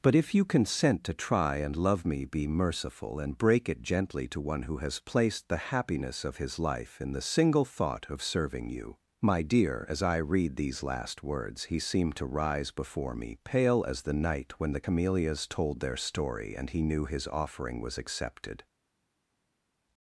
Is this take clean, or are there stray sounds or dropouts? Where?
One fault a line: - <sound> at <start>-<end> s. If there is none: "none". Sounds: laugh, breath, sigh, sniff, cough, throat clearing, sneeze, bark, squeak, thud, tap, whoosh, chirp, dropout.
none